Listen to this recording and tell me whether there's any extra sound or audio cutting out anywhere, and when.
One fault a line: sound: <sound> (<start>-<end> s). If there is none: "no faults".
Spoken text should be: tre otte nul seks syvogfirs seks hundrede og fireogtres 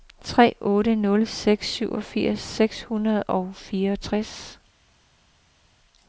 no faults